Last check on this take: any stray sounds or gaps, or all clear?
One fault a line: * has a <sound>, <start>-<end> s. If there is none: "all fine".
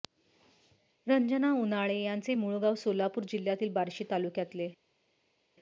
all fine